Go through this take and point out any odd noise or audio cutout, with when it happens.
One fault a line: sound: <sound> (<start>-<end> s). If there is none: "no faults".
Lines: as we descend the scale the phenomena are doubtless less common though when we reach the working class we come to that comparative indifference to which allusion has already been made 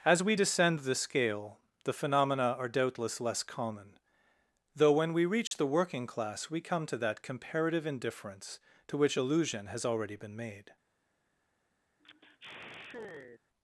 sound: dropout (5.5-5.5 s)
sound: sigh (12.0-13.4 s)